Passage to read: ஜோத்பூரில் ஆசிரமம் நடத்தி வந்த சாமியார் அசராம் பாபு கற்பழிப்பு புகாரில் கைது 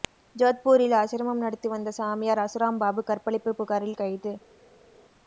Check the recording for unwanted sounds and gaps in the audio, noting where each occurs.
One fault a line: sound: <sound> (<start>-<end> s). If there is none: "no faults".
no faults